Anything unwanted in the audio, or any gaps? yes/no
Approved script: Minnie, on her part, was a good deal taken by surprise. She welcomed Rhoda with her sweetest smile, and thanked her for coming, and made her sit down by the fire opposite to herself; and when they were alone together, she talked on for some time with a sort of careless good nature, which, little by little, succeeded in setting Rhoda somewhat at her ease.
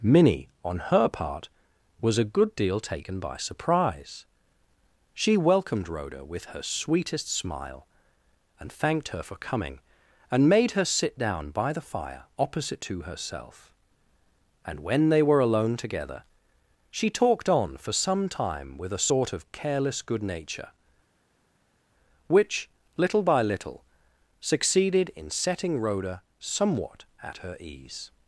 no